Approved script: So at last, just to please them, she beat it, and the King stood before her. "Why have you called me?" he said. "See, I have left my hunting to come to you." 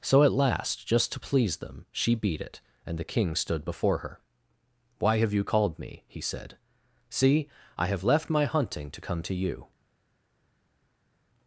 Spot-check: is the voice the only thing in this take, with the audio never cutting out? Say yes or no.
yes